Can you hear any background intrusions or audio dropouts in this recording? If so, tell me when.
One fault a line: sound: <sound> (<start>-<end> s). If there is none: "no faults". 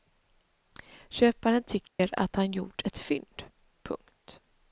sound: dropout (1.9-2.0 s)